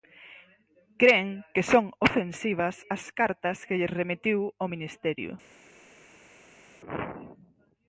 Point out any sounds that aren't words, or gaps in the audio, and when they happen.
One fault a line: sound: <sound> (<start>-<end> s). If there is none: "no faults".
no faults